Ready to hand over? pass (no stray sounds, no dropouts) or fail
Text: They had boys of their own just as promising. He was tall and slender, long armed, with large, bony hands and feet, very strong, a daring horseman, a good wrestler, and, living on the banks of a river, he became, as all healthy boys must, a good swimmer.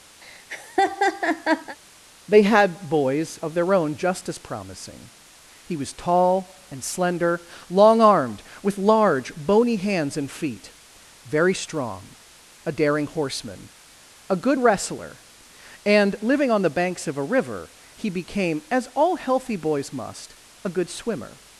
fail